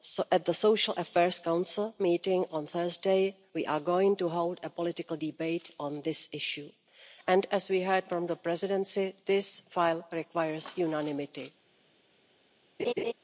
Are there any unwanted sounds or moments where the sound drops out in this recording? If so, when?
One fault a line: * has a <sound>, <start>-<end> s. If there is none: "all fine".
* has a laugh, 12.8-13.1 s